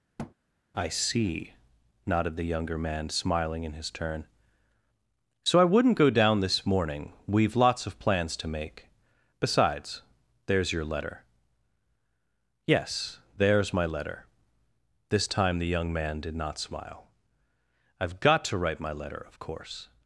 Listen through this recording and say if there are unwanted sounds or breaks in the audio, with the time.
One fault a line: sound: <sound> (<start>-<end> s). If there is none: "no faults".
sound: thud (0.2-0.3 s)